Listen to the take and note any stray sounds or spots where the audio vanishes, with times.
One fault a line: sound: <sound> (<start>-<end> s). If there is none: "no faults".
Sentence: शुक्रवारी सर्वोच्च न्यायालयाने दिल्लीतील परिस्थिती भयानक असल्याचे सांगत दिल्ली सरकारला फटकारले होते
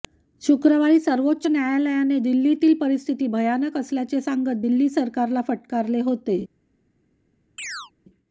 sound: chirp (7.6-7.9 s)